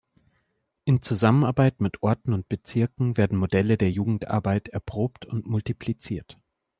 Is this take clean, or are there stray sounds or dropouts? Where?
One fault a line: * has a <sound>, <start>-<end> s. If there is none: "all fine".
all fine